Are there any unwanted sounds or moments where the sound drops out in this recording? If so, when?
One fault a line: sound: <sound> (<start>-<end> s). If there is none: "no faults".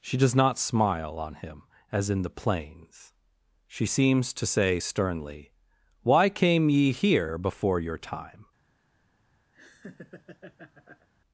sound: laugh (9.5-11.1 s)